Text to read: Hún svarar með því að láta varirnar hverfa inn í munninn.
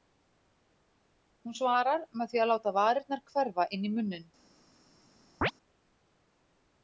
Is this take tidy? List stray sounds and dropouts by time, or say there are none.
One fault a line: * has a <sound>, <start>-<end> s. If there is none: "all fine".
* has a chirp, 5.4-5.5 s